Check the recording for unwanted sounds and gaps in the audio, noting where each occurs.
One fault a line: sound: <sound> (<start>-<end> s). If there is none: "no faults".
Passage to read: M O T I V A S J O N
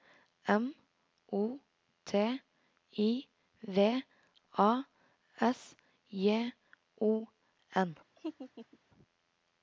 sound: laugh (8.2-8.8 s)